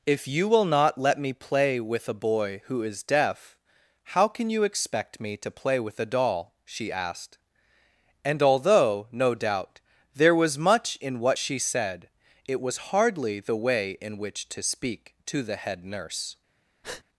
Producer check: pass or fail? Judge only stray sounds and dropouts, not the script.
fail